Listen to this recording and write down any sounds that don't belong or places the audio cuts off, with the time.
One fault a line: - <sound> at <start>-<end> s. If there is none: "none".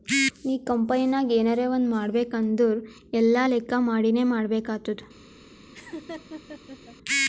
- laugh at 5.7-7.0 s